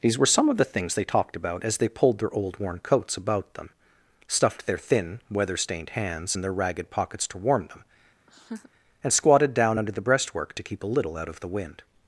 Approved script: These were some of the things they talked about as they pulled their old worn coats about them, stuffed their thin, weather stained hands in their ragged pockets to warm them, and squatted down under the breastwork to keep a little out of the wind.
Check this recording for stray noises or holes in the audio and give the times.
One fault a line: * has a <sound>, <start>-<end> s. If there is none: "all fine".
* has a laugh, 8.3-8.7 s